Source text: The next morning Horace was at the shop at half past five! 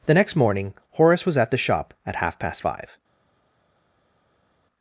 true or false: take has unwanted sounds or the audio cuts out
false